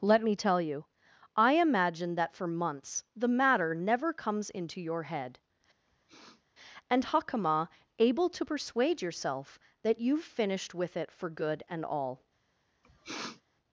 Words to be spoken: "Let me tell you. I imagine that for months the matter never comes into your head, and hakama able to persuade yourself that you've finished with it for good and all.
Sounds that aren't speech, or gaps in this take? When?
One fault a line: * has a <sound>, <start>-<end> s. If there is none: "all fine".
* has a sniff, 5.9-6.4 s
* has a sniff, 12.8-13.4 s